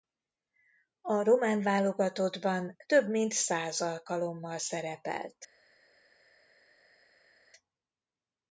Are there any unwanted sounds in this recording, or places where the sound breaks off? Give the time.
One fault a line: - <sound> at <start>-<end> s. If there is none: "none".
none